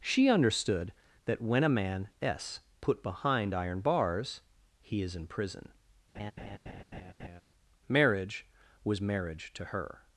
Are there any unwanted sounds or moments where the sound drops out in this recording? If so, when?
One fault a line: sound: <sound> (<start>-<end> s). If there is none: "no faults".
sound: laugh (6.1-7.4 s)